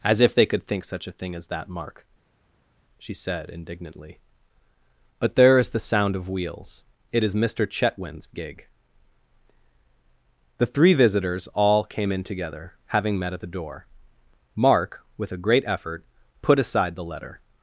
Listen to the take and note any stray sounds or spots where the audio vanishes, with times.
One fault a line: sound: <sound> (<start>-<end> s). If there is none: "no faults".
no faults